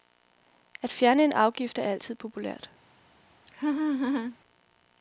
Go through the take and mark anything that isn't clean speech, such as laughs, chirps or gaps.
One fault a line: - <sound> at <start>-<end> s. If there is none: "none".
- laugh at 3.5-4.4 s